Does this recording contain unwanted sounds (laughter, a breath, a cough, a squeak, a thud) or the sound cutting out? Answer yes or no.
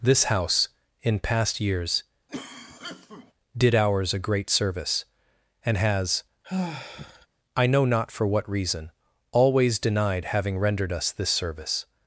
yes